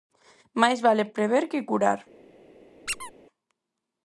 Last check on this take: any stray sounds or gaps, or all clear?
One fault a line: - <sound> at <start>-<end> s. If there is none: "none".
- squeak at 2.9-3.1 s